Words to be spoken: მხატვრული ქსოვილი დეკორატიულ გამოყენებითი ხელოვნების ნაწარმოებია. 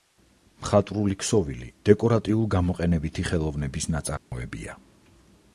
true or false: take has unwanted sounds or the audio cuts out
true